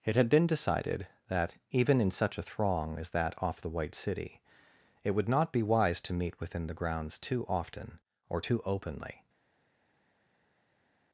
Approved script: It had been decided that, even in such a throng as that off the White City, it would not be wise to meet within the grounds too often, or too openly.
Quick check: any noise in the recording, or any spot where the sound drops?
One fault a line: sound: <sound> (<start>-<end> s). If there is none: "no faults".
no faults